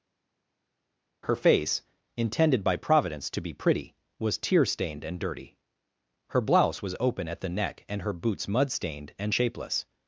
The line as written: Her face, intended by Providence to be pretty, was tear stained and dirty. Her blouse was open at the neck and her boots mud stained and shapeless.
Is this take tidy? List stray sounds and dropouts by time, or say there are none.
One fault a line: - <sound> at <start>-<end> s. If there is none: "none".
none